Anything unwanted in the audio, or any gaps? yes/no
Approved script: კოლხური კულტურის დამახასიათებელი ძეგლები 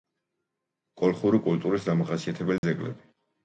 yes